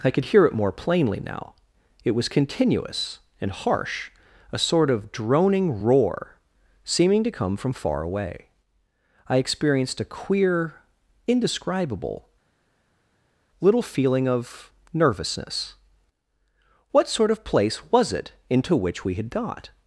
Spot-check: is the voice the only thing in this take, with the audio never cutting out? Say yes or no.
yes